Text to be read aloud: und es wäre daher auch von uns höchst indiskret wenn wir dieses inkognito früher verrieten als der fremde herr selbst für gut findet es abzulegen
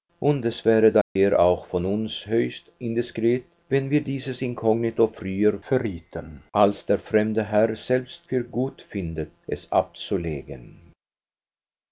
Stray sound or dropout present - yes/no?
yes